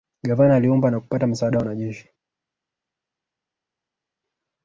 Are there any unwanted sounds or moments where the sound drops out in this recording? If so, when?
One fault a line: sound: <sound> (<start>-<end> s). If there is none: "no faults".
no faults